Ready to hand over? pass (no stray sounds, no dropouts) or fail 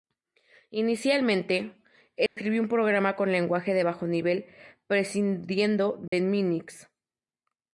fail